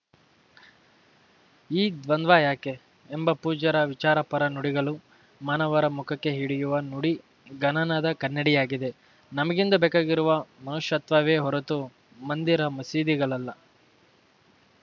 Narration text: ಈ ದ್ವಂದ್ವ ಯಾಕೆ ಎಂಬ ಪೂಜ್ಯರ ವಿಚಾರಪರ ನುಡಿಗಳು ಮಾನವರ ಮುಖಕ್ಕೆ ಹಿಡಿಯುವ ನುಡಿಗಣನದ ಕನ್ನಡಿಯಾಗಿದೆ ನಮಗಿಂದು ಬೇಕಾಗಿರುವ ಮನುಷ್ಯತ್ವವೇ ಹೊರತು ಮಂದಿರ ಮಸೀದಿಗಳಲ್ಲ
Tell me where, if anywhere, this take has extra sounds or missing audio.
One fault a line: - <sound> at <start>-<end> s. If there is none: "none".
none